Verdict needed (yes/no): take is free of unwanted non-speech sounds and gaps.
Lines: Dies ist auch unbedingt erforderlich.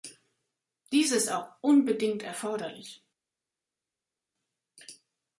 yes